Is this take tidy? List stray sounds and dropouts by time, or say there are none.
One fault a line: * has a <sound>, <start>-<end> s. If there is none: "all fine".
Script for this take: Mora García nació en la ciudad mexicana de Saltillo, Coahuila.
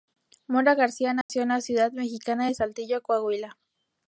* has a dropout, 1.2-1.3 s